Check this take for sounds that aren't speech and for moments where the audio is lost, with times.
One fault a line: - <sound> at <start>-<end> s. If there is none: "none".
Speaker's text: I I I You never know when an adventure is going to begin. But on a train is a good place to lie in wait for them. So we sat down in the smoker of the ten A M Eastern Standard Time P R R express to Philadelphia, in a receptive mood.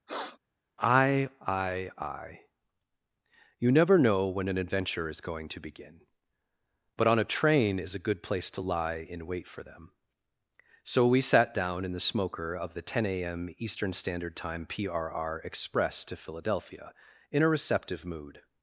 - sniff at 0.1-0.4 s